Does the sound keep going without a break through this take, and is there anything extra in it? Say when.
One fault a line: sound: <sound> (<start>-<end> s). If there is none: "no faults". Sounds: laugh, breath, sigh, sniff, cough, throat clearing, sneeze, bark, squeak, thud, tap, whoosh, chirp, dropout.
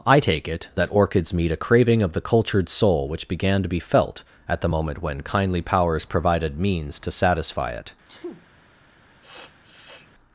sound: sneeze (8.0-8.5 s)
sound: sniff (9.2-10.1 s)